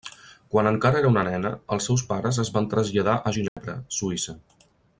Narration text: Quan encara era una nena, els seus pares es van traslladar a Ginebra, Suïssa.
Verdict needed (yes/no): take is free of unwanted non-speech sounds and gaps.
no